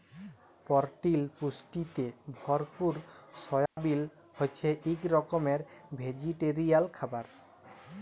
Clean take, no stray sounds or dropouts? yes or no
no